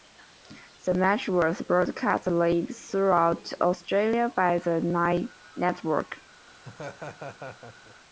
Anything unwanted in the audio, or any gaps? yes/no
yes